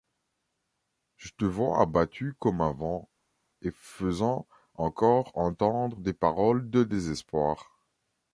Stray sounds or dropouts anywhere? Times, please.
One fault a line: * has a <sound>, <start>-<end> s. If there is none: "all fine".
all fine